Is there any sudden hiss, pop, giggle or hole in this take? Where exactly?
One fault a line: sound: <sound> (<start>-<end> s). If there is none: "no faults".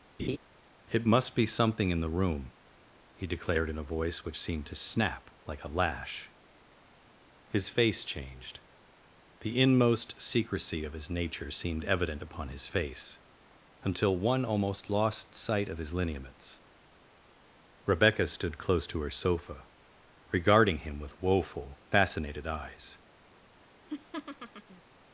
sound: laugh (0.2-0.4 s)
sound: laugh (23.8-24.8 s)